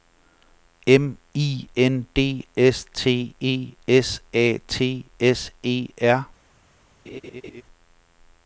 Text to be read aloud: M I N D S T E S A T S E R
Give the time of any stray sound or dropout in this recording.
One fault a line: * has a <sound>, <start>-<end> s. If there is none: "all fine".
* has a laugh, 7.1-7.6 s